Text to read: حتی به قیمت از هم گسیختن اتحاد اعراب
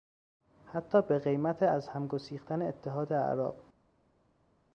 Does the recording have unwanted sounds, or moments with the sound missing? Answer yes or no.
no